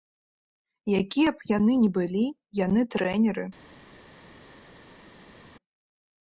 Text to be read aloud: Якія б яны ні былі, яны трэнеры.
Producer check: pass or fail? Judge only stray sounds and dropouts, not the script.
pass